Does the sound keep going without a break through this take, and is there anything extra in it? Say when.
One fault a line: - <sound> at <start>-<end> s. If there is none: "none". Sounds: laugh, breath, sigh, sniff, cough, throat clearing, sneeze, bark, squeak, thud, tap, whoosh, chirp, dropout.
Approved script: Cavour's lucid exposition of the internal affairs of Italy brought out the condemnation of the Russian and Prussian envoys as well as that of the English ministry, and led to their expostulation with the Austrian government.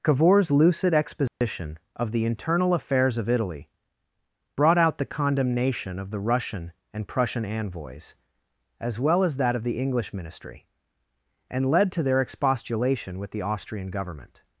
- dropout at 1.3-1.4 s